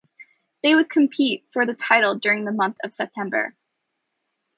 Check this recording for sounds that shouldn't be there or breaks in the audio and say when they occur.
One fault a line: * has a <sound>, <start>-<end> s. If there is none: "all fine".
all fine